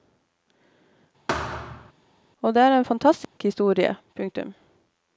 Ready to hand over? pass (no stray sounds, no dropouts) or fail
fail